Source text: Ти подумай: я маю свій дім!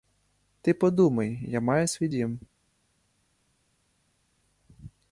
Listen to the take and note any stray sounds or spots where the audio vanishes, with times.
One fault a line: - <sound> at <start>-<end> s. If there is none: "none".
none